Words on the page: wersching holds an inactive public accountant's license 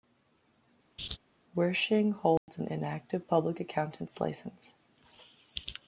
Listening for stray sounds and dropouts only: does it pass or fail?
fail